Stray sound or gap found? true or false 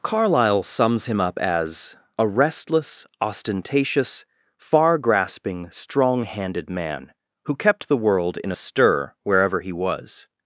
false